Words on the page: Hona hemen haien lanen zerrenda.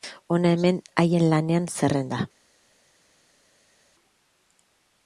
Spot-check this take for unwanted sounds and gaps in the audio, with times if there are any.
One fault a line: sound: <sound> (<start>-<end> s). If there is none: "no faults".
no faults